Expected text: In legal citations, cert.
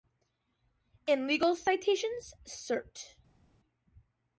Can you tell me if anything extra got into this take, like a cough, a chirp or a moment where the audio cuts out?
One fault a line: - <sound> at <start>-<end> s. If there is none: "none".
none